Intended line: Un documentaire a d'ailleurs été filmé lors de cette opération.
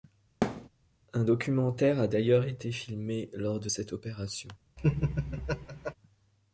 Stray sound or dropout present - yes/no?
yes